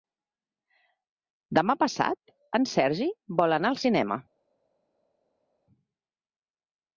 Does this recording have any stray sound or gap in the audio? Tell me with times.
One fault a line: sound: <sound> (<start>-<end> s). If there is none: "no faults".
no faults